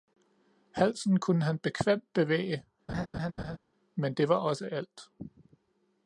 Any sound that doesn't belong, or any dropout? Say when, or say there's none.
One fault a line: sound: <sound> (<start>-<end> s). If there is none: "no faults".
sound: laugh (2.9-3.6 s)